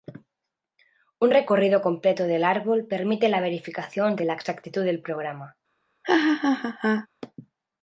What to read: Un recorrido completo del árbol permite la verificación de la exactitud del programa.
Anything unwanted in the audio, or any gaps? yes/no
yes